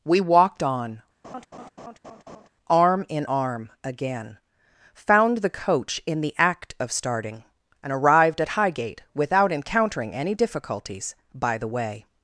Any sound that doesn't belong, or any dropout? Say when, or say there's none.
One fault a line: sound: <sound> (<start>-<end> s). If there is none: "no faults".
sound: laugh (1.2-2.5 s)